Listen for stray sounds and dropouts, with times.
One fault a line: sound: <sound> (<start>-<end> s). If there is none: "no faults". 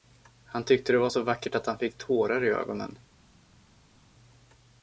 no faults